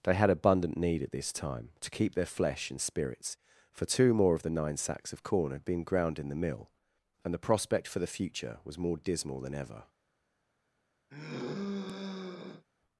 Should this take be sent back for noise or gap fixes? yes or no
yes